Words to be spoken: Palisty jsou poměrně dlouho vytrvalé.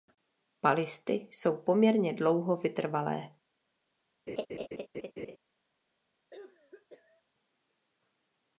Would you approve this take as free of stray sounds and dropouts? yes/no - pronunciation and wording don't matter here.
no